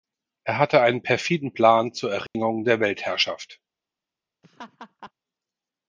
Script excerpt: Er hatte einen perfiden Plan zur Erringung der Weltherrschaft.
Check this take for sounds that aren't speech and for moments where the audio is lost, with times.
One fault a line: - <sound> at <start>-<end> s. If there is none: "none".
- dropout at 2.3-2.3 s
- laugh at 4.4-5.1 s